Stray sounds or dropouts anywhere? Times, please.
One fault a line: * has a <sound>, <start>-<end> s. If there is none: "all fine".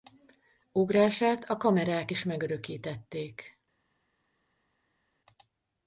all fine